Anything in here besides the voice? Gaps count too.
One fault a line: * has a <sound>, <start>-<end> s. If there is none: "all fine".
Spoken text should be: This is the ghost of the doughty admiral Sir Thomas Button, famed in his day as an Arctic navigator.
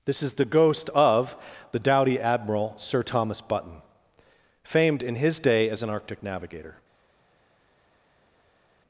all fine